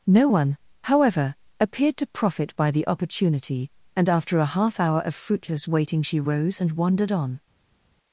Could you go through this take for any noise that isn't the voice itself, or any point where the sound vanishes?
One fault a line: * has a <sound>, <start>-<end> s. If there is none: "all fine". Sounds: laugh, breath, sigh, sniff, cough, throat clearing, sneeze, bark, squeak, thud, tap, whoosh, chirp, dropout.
all fine